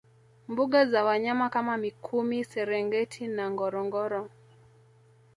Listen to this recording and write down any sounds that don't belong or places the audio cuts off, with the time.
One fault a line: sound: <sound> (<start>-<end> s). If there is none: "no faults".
no faults